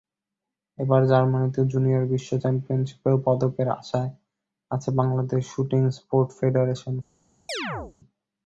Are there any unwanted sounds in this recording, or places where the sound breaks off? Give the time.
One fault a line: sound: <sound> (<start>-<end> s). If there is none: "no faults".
sound: chirp (7.5-8.0 s)